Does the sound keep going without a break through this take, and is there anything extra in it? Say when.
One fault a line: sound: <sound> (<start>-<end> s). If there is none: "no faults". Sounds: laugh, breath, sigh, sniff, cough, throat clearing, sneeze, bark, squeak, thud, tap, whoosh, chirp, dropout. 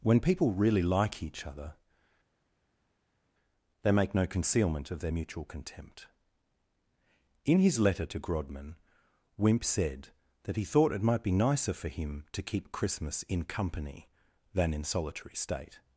no faults